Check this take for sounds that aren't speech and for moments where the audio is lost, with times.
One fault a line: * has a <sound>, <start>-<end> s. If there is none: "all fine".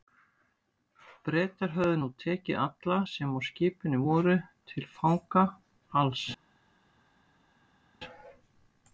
all fine